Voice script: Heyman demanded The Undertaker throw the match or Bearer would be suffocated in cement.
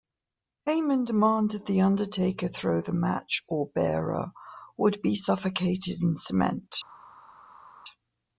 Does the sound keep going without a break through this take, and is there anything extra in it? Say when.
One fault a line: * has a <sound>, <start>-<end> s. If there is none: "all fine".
all fine